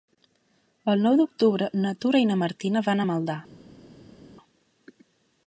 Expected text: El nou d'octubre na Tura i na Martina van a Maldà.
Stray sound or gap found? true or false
false